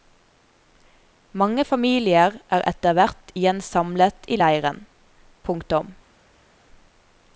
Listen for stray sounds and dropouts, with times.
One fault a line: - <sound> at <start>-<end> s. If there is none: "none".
none